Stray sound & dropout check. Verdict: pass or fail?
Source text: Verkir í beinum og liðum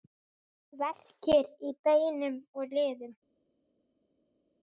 pass